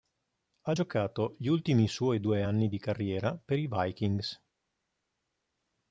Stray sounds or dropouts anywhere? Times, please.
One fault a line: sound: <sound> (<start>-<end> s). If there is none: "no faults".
no faults